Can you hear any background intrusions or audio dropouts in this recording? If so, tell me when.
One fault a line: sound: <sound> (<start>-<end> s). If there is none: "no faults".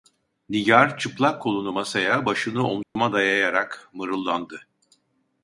sound: dropout (2.8-3.0 s)